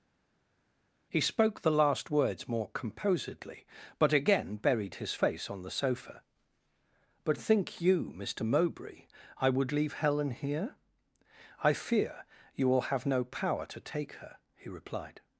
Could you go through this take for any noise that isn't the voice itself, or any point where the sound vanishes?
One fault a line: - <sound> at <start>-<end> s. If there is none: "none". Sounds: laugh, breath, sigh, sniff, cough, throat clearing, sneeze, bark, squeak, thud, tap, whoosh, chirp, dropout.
none